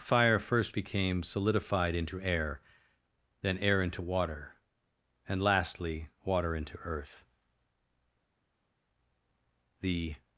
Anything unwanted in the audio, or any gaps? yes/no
no